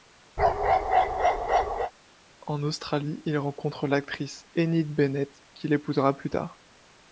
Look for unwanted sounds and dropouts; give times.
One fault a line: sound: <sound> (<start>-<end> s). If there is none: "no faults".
sound: bark (0.4-1.9 s)